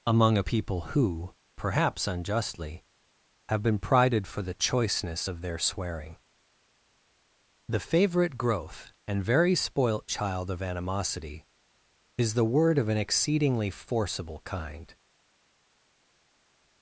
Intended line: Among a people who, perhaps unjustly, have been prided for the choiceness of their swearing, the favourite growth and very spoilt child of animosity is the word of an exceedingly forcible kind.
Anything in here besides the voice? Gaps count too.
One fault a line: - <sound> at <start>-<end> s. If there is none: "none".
none